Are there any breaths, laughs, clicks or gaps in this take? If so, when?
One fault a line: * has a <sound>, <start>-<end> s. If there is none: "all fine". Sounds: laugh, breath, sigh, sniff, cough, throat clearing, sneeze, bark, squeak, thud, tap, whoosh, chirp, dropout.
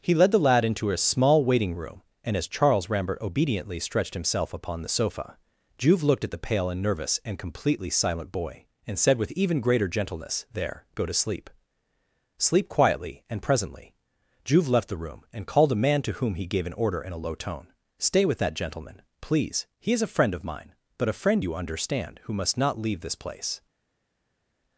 all fine